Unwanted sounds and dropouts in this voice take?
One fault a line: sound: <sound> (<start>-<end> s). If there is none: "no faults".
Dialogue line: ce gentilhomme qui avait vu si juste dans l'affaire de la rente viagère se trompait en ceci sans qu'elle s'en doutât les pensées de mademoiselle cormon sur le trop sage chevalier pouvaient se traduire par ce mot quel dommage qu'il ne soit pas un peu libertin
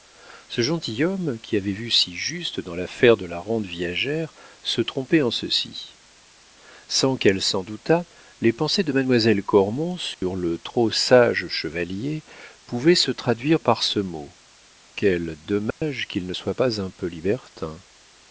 sound: dropout (10.1-10.2 s)
sound: dropout (15.7-15.8 s)